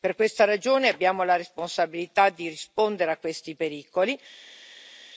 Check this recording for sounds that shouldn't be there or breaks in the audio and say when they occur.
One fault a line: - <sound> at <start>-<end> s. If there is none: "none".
none